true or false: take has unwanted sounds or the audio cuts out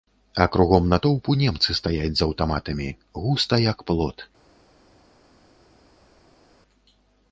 false